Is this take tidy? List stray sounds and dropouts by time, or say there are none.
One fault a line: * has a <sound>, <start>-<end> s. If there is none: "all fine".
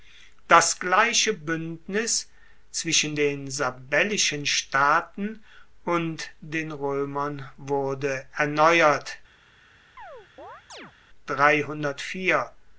* has a chirp, 10.0-10.9 s